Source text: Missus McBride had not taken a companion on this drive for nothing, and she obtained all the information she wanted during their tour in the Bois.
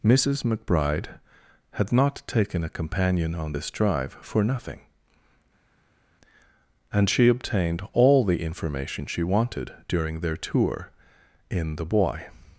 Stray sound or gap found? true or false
false